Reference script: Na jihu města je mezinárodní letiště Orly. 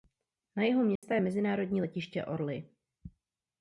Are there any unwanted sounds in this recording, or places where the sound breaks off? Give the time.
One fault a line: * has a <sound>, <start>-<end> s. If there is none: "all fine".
* has a dropout, 1.0-1.0 s